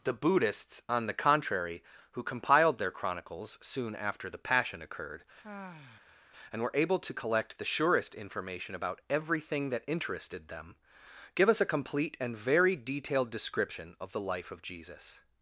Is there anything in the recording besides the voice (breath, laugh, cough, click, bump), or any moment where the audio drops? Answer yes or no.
yes